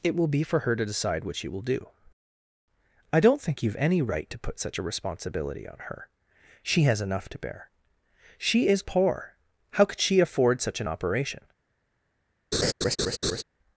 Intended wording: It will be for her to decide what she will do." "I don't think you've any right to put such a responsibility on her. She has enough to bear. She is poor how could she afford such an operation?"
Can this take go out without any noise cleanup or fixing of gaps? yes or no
no